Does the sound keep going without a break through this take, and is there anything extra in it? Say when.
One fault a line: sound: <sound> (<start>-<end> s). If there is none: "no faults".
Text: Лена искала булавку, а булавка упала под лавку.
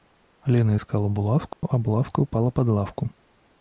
sound: dropout (1.5-1.6 s)